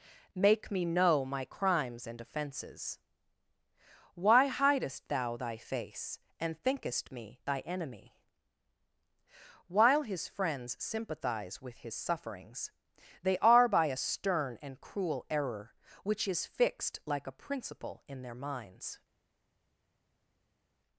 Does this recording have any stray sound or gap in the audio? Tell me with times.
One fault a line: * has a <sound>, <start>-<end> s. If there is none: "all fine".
all fine